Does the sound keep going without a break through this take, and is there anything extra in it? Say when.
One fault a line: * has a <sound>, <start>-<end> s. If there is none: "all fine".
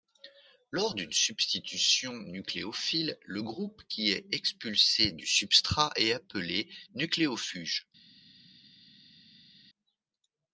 all fine